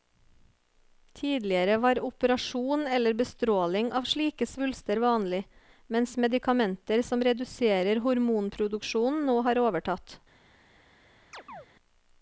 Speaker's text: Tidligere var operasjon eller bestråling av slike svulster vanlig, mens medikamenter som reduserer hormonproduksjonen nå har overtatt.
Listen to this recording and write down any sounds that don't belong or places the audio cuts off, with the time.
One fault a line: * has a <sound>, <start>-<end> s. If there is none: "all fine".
* has a chirp, 11.3-11.7 s